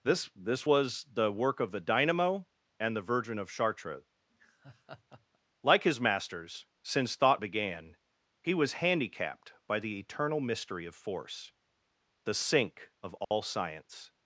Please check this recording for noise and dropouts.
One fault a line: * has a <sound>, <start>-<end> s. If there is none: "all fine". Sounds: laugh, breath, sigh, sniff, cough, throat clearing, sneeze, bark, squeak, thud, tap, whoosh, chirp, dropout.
* has a laugh, 4.3-5.4 s
* has a dropout, 13.2-13.3 s